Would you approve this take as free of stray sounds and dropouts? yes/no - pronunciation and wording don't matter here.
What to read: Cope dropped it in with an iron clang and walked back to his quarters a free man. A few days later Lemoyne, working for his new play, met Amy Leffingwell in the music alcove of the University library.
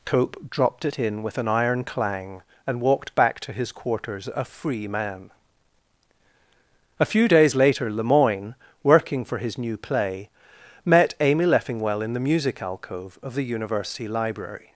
yes